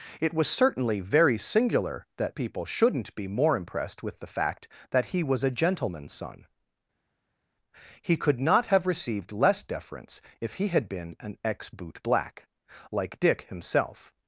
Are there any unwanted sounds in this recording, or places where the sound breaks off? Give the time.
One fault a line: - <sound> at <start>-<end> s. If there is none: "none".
none